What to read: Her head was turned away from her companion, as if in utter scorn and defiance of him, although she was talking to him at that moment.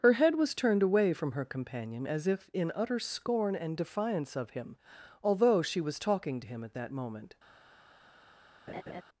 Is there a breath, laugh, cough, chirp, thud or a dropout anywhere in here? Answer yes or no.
yes